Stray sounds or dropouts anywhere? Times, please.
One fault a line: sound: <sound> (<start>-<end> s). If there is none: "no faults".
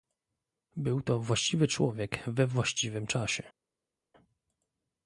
no faults